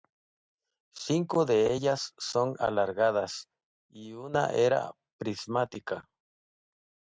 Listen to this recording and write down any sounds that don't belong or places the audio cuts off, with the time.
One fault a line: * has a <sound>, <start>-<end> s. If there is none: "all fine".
all fine